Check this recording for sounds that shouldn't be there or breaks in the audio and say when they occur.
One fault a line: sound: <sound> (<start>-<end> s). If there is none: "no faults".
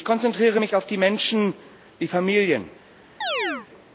sound: chirp (3.2-3.7 s)